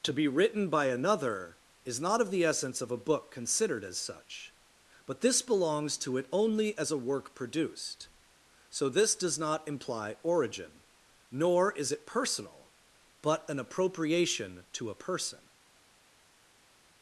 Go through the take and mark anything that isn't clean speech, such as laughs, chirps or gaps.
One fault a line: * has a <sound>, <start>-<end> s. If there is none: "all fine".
all fine